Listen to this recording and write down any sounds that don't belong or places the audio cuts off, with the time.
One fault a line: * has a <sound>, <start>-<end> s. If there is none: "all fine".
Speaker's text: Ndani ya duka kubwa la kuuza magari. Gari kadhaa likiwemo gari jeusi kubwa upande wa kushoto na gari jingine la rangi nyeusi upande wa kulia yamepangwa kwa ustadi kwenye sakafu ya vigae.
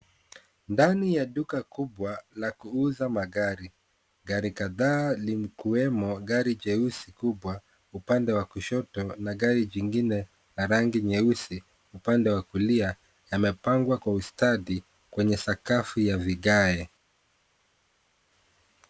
all fine